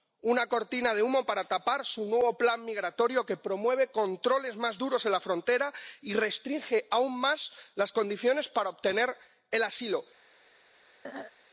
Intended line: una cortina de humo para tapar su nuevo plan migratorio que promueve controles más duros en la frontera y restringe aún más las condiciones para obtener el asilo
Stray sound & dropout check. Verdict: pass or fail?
fail